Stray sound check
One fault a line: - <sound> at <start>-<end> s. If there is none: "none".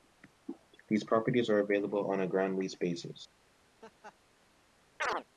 - laugh at 3.8-4.2 s
- chirp at 5.0-5.2 s